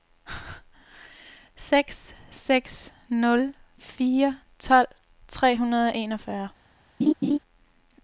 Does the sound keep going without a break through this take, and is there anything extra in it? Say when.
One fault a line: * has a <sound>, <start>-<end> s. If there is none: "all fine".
* has a laugh, 7.0-7.4 s